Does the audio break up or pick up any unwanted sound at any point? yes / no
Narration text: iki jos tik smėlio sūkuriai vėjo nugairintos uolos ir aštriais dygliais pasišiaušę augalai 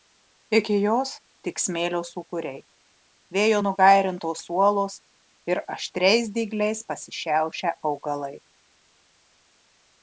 no